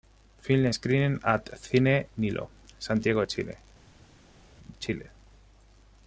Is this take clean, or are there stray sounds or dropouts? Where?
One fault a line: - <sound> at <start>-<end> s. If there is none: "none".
none